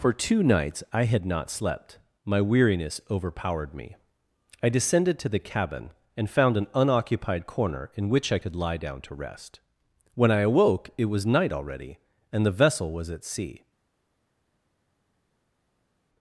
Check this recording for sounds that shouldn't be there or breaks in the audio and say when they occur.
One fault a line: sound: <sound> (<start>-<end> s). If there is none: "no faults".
no faults